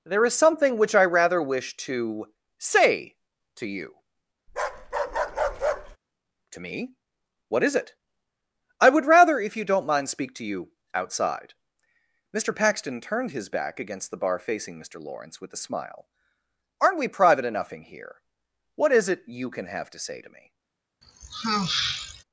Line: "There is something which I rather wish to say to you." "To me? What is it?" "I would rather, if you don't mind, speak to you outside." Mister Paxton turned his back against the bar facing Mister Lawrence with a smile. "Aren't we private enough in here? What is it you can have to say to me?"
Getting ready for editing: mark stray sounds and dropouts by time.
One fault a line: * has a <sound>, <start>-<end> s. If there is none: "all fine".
* has a bark, 4.5-6.0 s
* has a sigh, 21.0-22.2 s